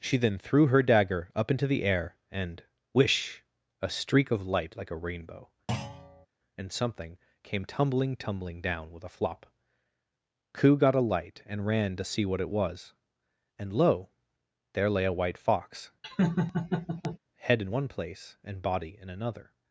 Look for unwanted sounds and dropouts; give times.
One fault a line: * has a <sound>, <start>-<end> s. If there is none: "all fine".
* has a thud, 5.7-6.3 s
* has a laugh, 16.0-17.2 s